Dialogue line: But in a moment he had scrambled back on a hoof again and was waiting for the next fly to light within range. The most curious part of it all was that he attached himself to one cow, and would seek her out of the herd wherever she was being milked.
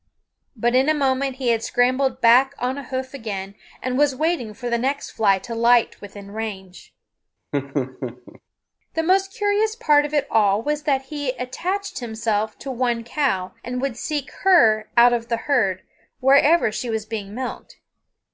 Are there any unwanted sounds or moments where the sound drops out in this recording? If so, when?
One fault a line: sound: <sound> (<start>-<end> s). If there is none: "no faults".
sound: laugh (7.5-8.4 s)